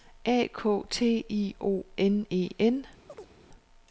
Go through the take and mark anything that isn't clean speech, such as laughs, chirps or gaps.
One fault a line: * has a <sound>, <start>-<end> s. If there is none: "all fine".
* has a chirp, 3.1-3.3 s